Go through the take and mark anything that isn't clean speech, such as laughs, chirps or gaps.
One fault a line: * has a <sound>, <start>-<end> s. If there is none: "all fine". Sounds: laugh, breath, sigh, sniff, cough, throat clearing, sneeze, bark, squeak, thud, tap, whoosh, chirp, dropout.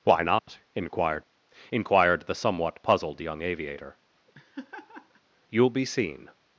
* has a dropout, 0.4-0.5 s
* has a laugh, 4.3-5.2 s